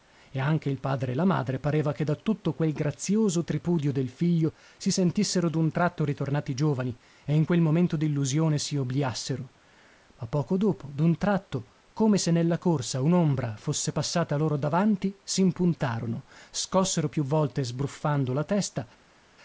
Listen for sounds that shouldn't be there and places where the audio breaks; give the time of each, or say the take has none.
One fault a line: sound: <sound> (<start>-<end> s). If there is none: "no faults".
no faults